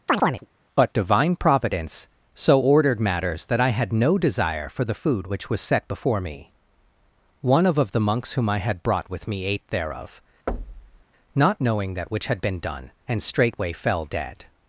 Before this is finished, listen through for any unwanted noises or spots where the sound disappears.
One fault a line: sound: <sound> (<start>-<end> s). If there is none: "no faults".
sound: chirp (0.1-0.5 s)
sound: thud (10.5-11.0 s)